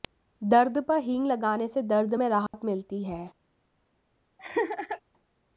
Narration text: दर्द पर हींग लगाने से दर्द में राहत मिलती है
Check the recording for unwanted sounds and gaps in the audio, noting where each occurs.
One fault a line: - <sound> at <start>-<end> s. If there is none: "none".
- dropout at 2.5-2.5 s
- laugh at 4.4-5.0 s